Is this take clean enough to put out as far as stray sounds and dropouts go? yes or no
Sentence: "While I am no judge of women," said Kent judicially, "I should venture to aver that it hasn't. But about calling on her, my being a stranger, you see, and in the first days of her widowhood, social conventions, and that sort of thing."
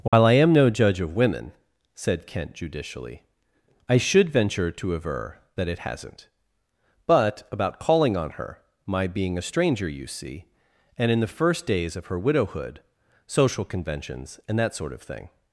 no